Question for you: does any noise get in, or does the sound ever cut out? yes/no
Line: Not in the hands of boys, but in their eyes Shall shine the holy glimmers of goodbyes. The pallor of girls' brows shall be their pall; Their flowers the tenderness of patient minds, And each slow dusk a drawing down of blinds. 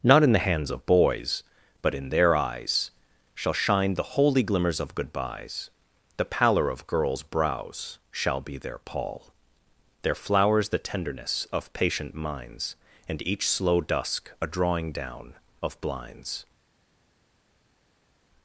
no